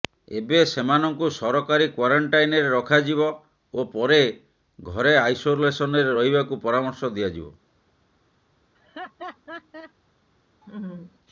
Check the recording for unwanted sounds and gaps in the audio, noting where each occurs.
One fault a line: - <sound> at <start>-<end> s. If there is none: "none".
- laugh at 8.7-9.9 s
- laugh at 10.6-11.2 s